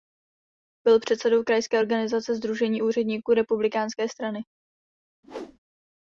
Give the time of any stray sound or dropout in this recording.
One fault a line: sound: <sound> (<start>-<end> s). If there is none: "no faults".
sound: whoosh (5.2-5.6 s)